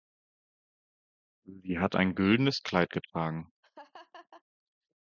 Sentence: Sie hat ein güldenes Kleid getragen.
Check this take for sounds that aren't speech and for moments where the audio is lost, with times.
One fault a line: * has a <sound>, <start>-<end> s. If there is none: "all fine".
* has a laugh, 3.6-4.4 s